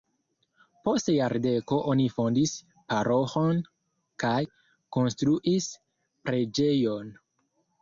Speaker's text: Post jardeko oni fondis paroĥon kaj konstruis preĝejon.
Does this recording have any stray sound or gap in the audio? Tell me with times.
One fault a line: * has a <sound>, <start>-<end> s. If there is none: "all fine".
all fine